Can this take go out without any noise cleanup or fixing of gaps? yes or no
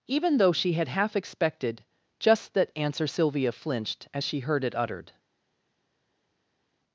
yes